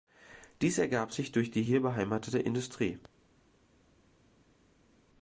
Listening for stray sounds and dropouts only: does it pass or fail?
pass